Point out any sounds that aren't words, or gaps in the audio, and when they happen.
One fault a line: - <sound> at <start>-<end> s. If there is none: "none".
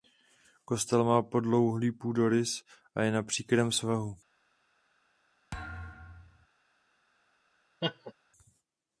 - thud at 5.5-6.5 s
- laugh at 7.8-8.1 s